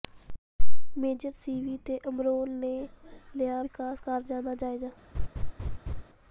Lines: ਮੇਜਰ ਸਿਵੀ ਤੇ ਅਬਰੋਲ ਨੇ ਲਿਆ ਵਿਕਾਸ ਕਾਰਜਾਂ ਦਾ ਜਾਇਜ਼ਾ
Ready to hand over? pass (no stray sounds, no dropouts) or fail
fail